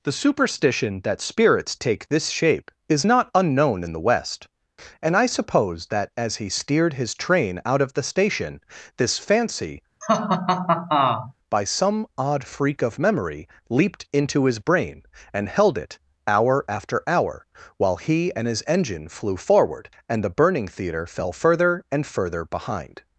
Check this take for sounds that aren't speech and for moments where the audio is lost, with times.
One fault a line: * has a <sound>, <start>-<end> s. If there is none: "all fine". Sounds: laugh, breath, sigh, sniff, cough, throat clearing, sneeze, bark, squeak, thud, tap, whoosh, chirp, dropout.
* has a laugh, 10.0-11.3 s